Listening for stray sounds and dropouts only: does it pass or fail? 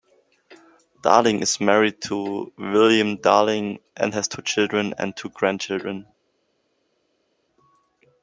pass